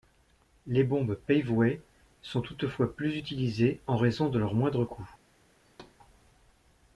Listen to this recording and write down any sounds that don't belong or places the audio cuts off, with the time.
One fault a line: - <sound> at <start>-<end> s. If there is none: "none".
- thud at 5.6-6.0 s